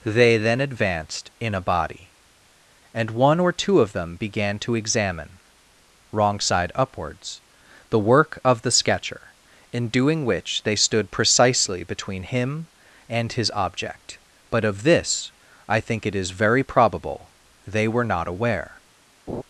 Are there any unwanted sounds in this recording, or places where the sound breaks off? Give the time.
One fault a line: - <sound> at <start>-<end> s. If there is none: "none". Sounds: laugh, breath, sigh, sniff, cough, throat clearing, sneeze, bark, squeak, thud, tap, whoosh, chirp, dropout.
- laugh at 19.3-19.4 s